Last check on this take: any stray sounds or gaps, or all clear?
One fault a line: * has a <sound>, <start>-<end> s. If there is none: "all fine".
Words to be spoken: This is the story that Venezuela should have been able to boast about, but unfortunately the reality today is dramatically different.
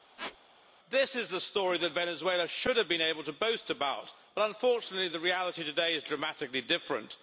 * has a squeak, 0.2-0.4 s